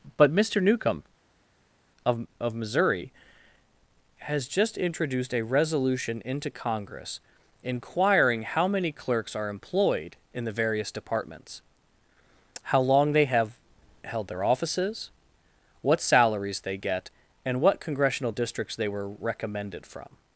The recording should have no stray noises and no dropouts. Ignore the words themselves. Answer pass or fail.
pass